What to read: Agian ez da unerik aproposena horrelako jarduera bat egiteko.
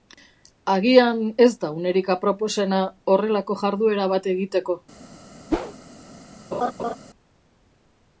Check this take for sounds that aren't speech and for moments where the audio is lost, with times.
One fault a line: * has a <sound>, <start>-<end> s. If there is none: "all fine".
* has a whoosh, 5.5-5.7 s
* has a laugh, 6.5-7.0 s